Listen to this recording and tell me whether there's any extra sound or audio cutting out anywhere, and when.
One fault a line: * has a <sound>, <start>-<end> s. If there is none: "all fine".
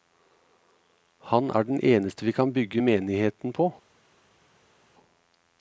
all fine